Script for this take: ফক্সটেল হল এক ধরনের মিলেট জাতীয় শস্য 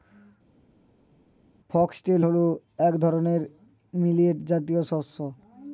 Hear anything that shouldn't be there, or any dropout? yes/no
no